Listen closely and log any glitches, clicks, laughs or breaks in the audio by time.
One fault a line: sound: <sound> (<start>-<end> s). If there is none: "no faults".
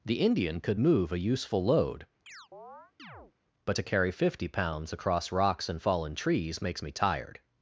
sound: chirp (2.3-3.3 s)